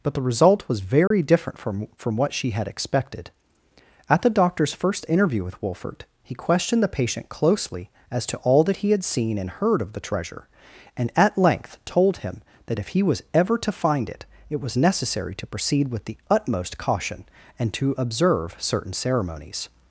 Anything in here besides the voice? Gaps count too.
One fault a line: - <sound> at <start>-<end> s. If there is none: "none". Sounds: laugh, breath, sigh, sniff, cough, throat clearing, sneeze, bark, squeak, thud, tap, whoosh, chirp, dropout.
- dropout at 1.1-1.1 s